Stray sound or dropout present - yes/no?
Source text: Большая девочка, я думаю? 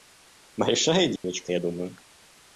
yes